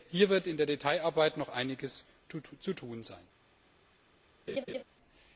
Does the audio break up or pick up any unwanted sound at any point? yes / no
yes